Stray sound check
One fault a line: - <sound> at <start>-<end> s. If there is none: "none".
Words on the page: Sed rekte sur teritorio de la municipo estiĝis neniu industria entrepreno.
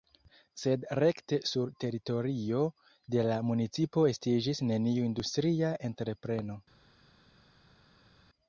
none